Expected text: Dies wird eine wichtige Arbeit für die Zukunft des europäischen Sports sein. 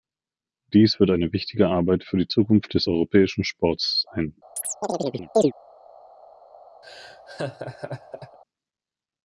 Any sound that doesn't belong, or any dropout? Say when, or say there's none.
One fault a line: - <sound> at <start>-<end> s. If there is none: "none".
- chirp at 4.6-5.5 s
- laugh at 6.8-8.4 s